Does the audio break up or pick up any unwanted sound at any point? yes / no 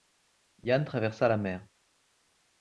no